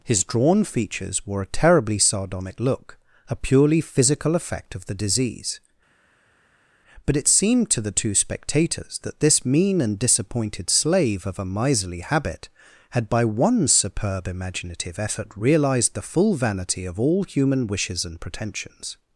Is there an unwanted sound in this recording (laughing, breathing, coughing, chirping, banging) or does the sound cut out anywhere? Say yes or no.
no